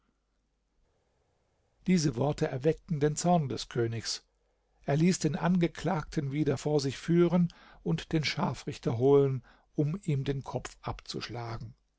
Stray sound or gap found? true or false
false